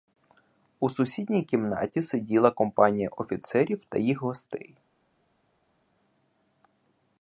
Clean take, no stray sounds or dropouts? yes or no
yes